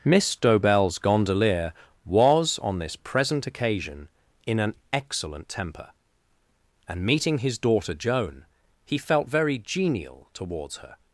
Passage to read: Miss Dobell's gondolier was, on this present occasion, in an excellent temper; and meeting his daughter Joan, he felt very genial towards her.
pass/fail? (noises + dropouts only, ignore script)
pass